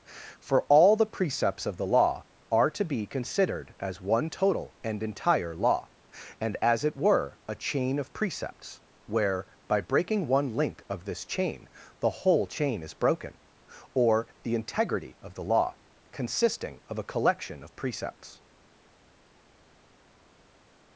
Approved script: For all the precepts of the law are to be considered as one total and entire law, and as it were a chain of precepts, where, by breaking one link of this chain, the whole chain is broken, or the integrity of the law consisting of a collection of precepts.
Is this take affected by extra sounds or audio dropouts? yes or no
no